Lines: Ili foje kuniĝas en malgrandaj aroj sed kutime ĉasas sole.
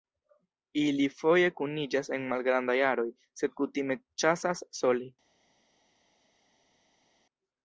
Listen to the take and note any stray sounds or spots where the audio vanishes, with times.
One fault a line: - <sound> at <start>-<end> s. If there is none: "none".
none